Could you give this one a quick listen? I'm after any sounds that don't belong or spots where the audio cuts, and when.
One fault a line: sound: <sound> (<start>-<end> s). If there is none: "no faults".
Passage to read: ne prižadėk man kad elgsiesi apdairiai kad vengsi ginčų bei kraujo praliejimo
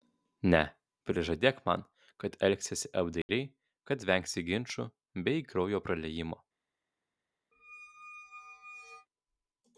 sound: dropout (3.2-3.3 s)
sound: squeak (7.5-9.1 s)